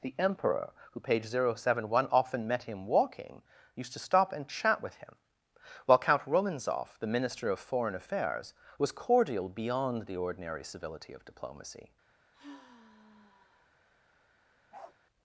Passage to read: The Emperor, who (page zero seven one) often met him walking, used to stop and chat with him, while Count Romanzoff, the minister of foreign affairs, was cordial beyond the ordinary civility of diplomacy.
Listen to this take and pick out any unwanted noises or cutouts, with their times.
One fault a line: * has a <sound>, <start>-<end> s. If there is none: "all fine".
* has a sigh, 12.3-13.7 s
* has a bark, 14.7-15.0 s